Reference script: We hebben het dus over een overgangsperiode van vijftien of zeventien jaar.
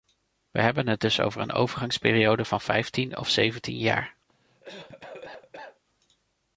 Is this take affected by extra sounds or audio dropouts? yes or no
yes